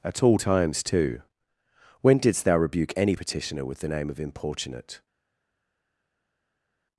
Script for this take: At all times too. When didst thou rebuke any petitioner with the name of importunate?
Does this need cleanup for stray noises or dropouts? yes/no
no